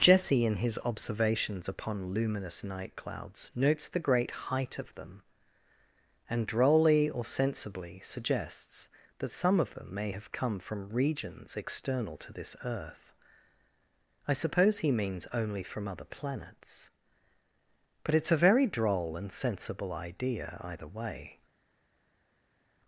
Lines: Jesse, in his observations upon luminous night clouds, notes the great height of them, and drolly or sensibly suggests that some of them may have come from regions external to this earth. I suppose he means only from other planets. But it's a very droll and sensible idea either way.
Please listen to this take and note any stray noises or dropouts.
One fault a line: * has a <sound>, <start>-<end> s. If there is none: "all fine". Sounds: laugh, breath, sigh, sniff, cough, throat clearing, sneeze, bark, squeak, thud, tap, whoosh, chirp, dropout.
all fine